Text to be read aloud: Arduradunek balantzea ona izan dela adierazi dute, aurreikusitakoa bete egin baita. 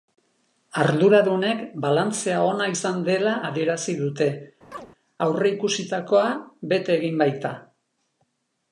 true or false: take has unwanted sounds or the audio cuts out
true